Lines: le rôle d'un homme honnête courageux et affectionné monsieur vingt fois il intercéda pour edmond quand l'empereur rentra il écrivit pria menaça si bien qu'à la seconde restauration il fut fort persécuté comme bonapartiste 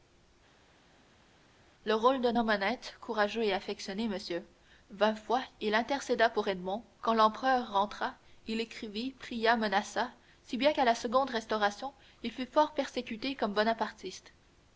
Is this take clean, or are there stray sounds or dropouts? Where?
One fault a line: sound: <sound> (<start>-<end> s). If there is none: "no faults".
no faults